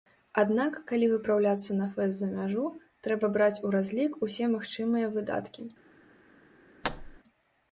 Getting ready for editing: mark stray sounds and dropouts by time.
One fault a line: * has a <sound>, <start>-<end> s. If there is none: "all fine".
* has a thud, 6.8-7.2 s